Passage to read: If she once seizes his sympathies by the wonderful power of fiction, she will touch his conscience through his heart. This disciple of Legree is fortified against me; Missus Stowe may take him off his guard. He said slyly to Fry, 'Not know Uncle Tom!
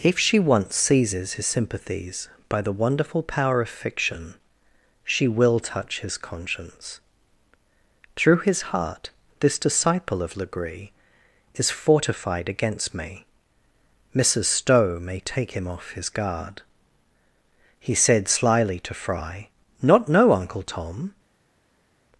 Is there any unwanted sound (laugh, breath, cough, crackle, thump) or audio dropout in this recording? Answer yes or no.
no